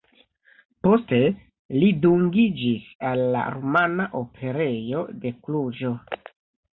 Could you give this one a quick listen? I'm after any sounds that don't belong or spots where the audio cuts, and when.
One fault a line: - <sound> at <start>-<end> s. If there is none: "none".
none